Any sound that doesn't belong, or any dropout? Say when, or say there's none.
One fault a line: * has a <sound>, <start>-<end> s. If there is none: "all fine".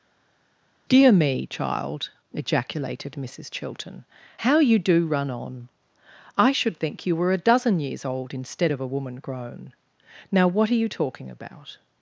all fine